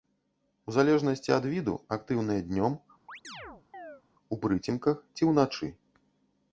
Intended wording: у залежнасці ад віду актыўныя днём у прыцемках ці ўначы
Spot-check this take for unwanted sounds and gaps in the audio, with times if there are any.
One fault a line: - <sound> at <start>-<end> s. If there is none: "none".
- chirp at 3.1-4.0 s